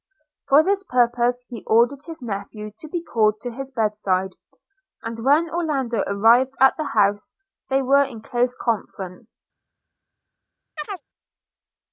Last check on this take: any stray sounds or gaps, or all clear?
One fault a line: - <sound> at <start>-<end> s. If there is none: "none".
- chirp at 10.8-11.0 s